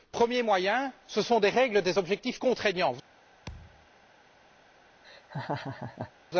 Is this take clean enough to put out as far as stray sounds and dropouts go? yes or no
no